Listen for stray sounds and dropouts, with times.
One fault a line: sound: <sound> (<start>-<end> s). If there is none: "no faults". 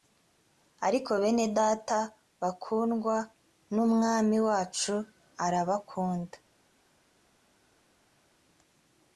no faults